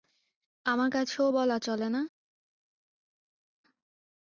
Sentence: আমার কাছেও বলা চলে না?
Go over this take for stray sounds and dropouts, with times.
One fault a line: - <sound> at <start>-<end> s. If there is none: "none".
none